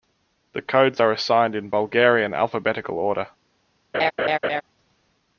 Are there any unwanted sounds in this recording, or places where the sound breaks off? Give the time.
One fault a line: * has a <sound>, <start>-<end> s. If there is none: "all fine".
* has a laugh, 3.9-4.6 s